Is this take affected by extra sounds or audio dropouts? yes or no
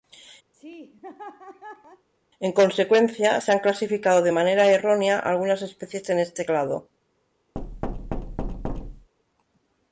yes